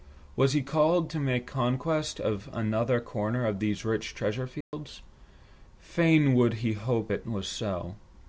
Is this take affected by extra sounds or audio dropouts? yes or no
yes